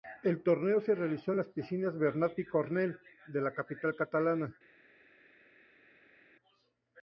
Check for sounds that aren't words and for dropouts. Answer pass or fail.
pass